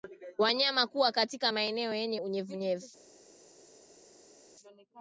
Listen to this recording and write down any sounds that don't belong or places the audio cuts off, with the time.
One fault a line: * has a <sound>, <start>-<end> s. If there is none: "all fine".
all fine